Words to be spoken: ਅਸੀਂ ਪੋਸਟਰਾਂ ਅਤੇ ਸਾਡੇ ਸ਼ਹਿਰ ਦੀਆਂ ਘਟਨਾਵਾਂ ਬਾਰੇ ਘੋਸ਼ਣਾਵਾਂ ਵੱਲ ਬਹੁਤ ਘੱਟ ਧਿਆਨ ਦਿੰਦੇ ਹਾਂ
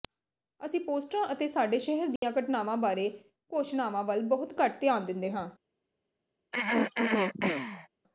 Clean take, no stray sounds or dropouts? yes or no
no